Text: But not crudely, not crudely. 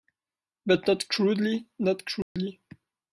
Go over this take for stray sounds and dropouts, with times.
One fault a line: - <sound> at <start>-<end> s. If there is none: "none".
- dropout at 2.2-2.4 s